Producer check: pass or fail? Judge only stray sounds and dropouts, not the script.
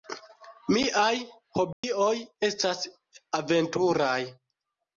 fail